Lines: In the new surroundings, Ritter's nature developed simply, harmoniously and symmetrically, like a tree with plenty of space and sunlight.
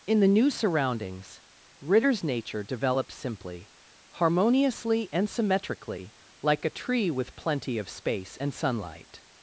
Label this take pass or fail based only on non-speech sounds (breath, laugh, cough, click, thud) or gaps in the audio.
pass